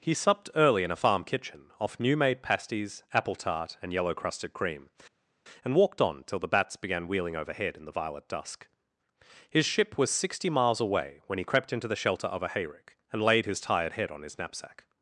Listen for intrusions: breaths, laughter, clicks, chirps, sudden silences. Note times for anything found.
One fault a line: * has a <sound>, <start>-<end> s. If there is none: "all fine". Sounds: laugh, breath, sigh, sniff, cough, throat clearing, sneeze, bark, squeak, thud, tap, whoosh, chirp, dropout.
all fine